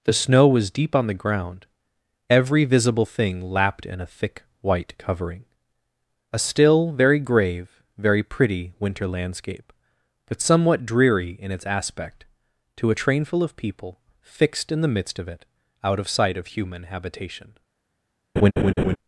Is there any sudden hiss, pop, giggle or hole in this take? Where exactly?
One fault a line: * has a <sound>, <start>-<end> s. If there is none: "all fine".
* has a laugh, 18.4-19.0 s